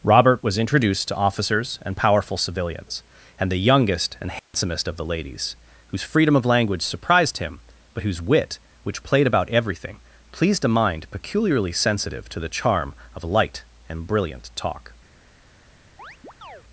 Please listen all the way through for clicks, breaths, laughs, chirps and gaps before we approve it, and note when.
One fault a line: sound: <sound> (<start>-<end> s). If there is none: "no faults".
sound: dropout (4.4-4.5 s)
sound: chirp (16.0-16.6 s)